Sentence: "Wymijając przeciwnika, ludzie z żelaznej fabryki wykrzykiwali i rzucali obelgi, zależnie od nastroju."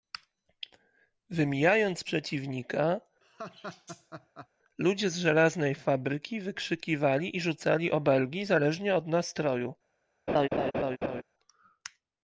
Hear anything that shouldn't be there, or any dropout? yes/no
yes